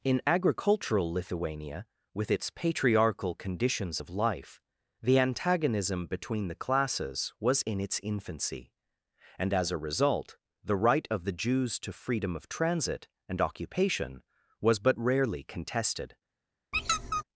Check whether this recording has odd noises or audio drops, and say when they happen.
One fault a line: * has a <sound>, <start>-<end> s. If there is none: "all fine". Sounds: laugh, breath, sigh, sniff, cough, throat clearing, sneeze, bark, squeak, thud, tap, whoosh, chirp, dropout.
* has a squeak, 16.7-17.2 s